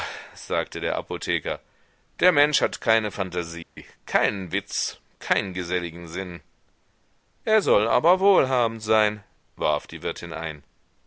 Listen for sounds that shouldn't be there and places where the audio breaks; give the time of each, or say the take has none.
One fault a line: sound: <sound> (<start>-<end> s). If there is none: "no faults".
sound: dropout (3.6-3.8 s)